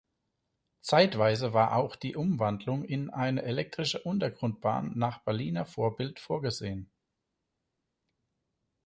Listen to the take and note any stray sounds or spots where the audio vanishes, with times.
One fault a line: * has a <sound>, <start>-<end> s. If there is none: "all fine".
all fine